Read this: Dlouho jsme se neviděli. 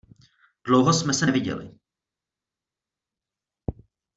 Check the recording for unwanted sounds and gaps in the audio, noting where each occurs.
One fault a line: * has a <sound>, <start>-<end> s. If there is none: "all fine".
all fine